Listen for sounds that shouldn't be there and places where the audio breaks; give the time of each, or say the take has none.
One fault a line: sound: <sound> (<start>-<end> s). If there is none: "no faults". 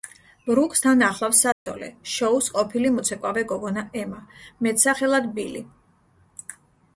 sound: dropout (1.5-1.7 s)